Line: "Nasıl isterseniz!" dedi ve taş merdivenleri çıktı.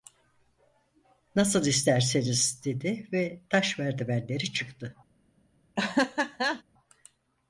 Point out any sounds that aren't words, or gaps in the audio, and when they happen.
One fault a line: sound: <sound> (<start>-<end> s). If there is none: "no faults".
sound: laugh (5.8-6.6 s)